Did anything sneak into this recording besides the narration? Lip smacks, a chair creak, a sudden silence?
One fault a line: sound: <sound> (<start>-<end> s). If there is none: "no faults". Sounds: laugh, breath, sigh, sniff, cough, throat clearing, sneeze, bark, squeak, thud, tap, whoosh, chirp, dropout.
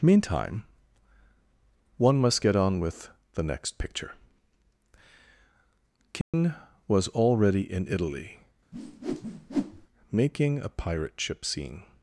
sound: dropout (6.2-6.3 s)
sound: whoosh (8.7-9.9 s)